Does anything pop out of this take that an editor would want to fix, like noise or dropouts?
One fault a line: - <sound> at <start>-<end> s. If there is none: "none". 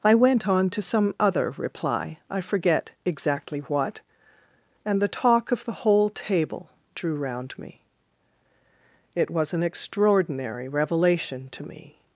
none